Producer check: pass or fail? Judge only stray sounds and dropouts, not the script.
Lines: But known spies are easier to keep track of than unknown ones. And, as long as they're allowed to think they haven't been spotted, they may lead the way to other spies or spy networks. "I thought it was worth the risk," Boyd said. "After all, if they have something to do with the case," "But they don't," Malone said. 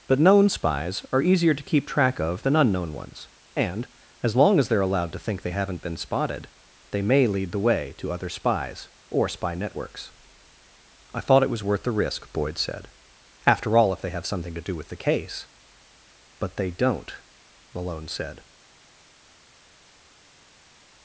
pass